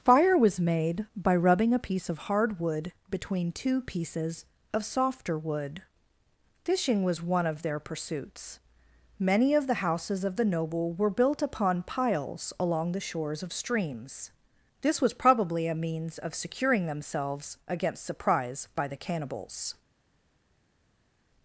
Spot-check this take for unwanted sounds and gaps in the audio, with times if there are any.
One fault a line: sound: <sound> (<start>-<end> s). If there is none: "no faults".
no faults